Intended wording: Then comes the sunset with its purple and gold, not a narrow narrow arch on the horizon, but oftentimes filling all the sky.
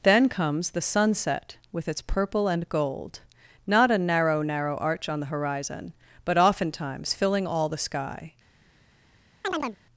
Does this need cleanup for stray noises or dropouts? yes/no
yes